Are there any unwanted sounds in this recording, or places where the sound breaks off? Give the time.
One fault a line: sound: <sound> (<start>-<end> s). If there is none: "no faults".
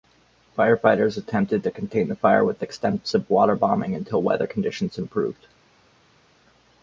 no faults